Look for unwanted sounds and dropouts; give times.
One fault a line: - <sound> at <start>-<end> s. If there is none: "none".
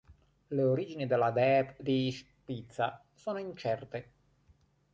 none